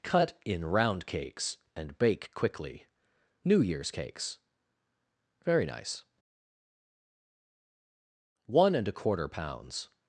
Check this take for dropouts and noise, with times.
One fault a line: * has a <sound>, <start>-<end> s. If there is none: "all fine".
all fine